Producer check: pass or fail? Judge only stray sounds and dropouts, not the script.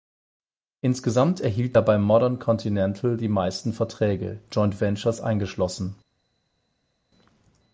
pass